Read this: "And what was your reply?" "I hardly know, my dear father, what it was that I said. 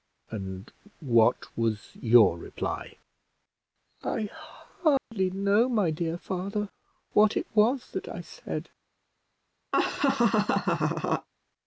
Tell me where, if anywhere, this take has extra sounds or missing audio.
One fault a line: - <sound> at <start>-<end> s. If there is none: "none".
- dropout at 5.0-5.1 s
- laugh at 9.7-11.3 s